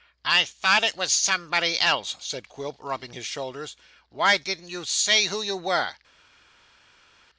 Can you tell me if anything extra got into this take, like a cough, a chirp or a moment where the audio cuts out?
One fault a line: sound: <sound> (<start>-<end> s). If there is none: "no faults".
no faults